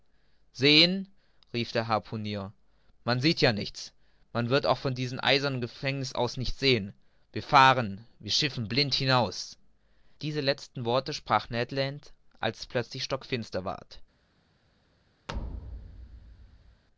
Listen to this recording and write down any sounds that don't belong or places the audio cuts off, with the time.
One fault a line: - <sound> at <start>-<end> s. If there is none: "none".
- thud at 15.3-16.8 s